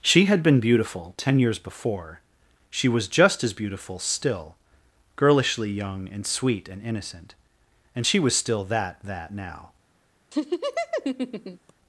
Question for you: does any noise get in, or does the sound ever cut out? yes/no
yes